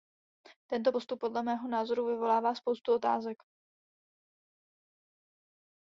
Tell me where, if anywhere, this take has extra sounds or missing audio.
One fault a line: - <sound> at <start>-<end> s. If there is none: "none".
none